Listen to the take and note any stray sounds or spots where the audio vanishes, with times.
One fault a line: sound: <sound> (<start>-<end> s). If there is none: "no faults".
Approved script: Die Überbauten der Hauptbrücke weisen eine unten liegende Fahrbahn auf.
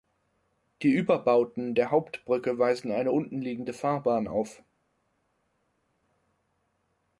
no faults